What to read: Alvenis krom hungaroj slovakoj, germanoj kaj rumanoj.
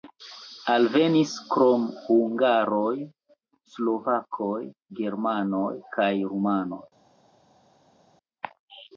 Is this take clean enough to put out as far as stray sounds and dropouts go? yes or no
yes